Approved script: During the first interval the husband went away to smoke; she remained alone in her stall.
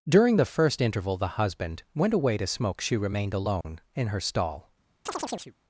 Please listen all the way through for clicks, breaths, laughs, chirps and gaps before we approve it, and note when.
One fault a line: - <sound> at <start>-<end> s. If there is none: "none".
- dropout at 3.6-3.6 s
- chirp at 5.1-5.5 s